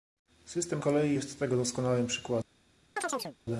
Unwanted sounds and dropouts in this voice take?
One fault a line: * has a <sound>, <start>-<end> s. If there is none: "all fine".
* has a chirp, 3.0-3.4 s